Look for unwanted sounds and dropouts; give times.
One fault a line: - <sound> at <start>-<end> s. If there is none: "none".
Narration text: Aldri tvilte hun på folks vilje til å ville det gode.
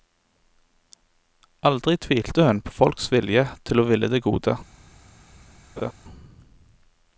- laugh at 5.8-5.9 s